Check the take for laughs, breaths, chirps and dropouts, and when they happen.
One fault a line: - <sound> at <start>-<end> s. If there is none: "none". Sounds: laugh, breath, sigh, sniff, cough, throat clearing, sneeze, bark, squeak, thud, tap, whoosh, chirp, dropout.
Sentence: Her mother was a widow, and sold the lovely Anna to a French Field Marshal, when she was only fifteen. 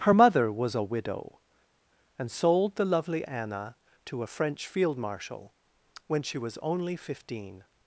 none